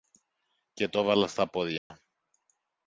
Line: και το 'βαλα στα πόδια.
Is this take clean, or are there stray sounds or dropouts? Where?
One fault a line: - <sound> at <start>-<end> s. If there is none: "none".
- dropout at 1.8-1.9 s